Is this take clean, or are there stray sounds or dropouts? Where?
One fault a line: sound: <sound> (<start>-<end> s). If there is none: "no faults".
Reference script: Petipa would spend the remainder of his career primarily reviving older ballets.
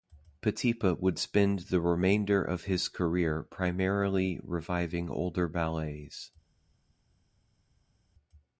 no faults